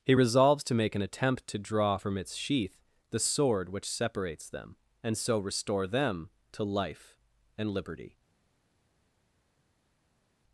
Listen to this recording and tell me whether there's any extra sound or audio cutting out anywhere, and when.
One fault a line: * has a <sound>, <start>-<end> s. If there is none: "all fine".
all fine